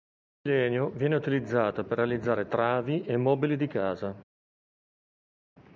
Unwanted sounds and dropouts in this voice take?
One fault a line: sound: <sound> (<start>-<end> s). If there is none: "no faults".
no faults